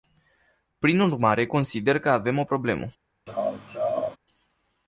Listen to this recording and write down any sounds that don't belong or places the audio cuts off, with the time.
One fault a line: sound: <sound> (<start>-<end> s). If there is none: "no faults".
sound: laugh (3.3-4.2 s)